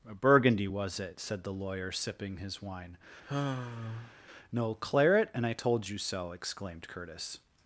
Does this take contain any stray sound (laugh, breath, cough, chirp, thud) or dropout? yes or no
yes